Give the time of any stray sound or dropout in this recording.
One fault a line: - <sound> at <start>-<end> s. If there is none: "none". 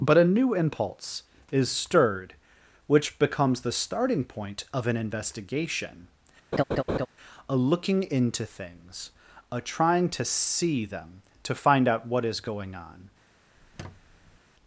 - laugh at 6.5-7.1 s
- squeak at 13.6-14.4 s